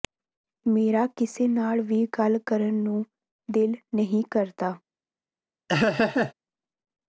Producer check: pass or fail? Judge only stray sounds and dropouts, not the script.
fail